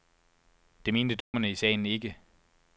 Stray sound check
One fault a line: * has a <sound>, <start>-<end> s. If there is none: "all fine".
* has a dropout, 1.2-1.3 s